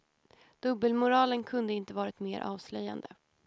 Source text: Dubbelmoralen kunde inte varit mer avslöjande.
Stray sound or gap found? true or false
false